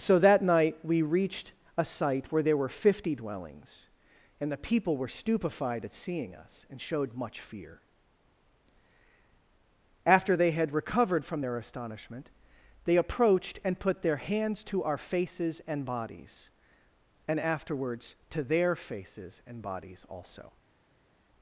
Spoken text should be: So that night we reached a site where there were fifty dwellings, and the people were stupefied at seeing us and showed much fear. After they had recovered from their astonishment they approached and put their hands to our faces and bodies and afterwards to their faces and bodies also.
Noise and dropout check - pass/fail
pass